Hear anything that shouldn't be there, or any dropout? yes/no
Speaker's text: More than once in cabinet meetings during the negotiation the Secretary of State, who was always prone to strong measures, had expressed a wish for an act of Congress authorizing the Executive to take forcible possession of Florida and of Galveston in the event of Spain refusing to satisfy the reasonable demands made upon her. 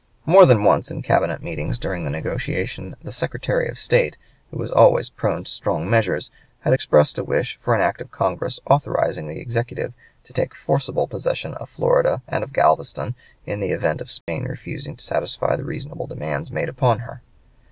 yes